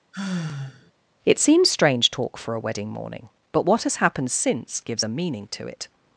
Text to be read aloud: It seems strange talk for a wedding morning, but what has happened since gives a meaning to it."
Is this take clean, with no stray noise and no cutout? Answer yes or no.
no